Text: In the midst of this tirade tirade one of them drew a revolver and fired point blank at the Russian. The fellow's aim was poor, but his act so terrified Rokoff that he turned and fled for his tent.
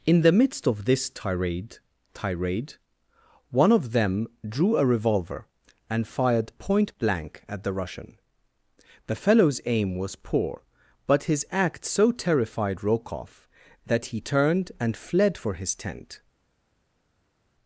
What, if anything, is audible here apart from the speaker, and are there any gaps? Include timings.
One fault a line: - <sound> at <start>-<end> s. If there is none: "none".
none